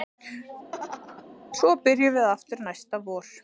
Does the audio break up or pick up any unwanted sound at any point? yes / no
yes